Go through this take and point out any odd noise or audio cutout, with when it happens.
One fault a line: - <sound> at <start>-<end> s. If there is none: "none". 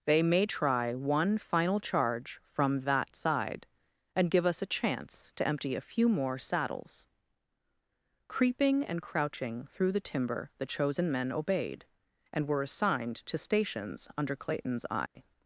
- dropout at 15.1-15.2 s